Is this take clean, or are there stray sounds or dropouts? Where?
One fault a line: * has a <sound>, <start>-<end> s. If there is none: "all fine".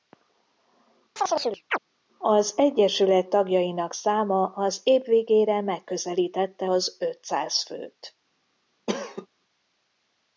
* has a chirp, 1.2-1.8 s
* has a cough, 8.9-9.3 s